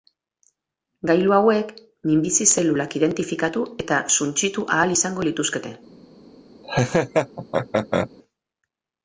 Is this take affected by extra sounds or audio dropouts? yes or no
yes